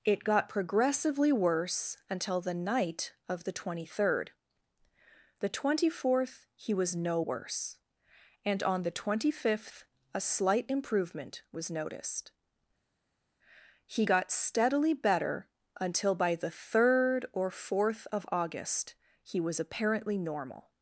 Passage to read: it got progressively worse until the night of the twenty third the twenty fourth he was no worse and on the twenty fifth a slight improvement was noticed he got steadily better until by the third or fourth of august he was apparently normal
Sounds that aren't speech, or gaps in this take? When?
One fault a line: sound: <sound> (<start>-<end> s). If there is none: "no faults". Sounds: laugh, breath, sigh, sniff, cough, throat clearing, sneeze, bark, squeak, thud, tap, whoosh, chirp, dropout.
no faults